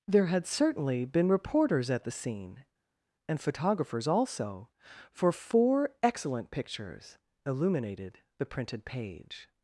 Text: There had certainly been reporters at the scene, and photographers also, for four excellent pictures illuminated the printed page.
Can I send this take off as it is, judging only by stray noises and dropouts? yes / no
yes